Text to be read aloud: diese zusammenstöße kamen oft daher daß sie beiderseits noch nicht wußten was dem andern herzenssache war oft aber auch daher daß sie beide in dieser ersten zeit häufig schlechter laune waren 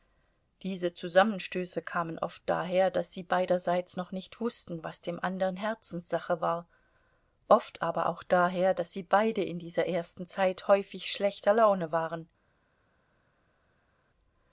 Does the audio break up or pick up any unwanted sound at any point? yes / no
no